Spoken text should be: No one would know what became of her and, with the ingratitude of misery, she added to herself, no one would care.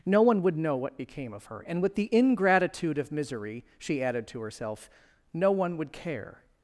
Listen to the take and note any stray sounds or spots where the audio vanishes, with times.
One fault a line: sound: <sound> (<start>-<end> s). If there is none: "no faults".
no faults